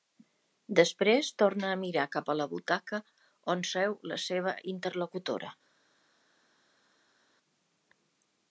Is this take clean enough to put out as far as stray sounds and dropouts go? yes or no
yes